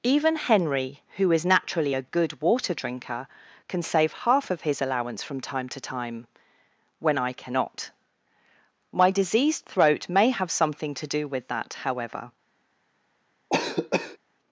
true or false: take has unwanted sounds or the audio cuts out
true